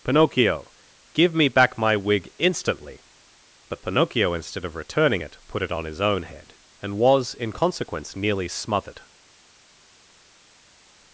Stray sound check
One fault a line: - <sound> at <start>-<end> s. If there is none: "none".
none